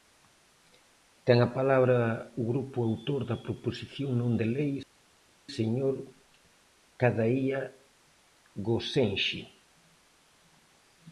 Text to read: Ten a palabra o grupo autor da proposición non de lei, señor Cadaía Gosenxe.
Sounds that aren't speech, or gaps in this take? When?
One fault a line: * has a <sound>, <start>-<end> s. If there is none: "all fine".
all fine